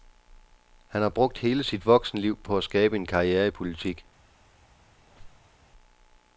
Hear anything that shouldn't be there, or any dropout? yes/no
yes